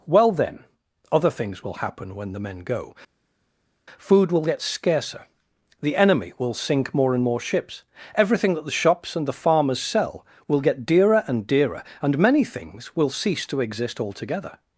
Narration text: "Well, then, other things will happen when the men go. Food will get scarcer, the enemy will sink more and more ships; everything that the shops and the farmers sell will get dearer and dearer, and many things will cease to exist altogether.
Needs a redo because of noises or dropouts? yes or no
no